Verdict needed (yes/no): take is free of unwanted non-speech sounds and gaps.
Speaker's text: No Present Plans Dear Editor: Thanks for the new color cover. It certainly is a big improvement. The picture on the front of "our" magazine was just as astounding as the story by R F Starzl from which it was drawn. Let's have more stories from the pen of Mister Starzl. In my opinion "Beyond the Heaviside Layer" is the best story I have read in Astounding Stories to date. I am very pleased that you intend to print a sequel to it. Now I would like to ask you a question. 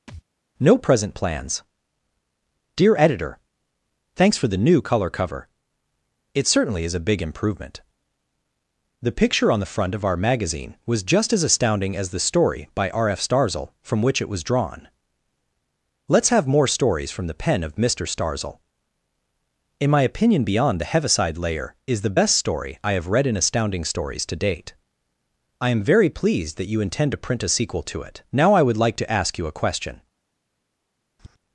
no